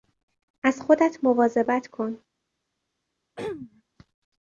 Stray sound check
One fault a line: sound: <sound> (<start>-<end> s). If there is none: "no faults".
sound: throat clearing (3.4-3.8 s)